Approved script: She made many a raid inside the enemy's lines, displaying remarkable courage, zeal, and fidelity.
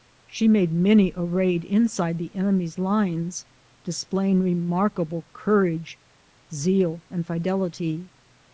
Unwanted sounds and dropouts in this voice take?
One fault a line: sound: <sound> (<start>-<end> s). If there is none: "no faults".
no faults